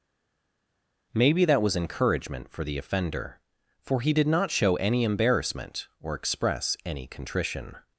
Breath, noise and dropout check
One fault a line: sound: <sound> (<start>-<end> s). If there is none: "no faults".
no faults